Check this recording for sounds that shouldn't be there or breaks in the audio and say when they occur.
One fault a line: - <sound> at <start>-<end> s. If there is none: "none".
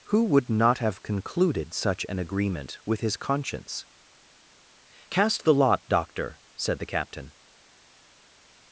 none